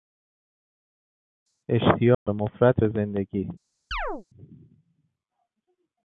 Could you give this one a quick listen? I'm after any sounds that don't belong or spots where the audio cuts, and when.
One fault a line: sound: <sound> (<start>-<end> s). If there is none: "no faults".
sound: dropout (2.1-2.3 s)
sound: chirp (3.9-4.2 s)